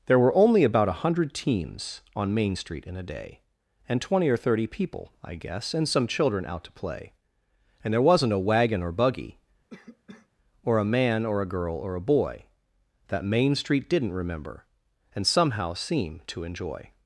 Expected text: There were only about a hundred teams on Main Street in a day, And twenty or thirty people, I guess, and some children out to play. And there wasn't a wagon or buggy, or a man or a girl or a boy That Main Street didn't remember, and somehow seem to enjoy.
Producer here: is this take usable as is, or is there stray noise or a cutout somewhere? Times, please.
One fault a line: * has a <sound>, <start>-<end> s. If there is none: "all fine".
* has a cough, 9.7-10.3 s